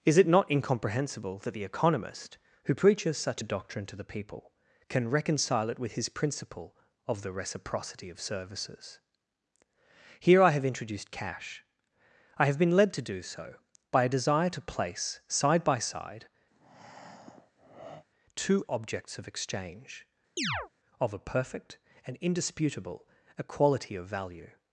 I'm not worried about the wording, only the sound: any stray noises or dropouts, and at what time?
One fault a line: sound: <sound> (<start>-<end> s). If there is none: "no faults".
sound: breath (16.5-18.1 s)
sound: chirp (20.4-20.7 s)